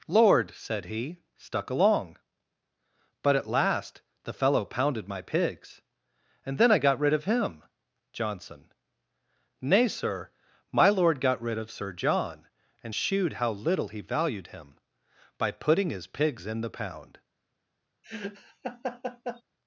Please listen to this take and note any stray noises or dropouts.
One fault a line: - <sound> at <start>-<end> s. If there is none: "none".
- laugh at 18.0-19.4 s